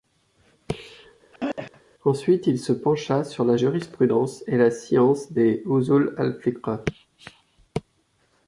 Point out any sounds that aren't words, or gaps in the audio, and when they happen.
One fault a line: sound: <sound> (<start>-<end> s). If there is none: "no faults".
sound: throat clearing (1.3-1.8 s)